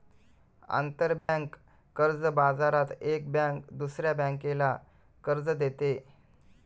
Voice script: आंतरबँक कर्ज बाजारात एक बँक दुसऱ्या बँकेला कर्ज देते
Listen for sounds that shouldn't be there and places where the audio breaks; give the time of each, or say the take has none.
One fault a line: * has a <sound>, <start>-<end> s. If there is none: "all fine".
* has a dropout, 1.2-1.3 s